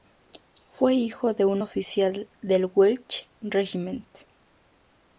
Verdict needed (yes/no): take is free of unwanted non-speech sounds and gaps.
yes